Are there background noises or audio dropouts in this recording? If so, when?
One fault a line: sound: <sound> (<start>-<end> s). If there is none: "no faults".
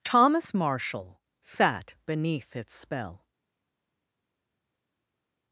no faults